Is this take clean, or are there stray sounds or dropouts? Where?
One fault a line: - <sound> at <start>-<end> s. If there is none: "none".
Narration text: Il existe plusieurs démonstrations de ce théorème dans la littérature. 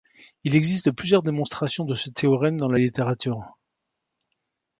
none